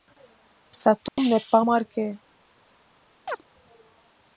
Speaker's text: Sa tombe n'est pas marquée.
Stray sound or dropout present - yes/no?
yes